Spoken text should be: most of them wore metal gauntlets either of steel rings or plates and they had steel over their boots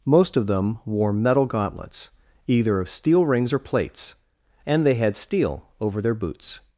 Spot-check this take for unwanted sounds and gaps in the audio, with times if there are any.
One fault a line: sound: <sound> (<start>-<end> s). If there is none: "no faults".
no faults